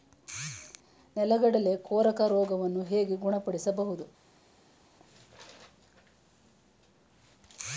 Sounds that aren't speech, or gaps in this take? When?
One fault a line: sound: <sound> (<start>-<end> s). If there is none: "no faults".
no faults